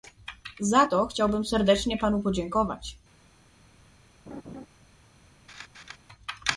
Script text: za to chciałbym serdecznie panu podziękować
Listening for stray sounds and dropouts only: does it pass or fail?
fail